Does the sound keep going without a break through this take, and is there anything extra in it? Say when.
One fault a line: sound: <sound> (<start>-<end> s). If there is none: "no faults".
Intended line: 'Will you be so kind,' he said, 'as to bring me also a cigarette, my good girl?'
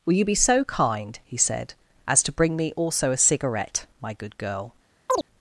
sound: chirp (5.1-5.3 s)